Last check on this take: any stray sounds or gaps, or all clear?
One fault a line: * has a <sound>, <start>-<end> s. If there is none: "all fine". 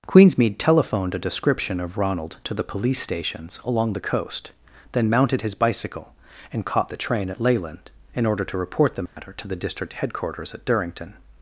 * has a dropout, 9.1-9.2 s